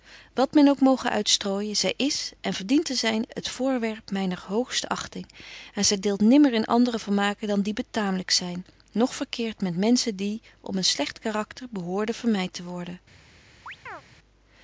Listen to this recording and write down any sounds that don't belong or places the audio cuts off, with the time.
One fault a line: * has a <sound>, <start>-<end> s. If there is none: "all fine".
* has a chirp, 13.7-14.0 s